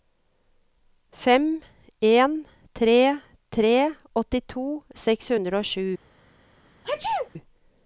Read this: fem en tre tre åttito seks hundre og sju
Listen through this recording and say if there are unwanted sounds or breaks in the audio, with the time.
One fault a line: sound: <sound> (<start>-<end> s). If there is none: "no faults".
sound: sneeze (6.8-7.3 s)